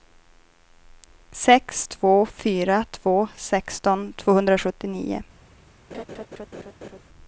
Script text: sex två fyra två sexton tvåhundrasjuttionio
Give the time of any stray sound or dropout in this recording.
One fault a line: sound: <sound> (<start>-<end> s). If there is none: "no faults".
sound: laugh (5.9-7.0 s)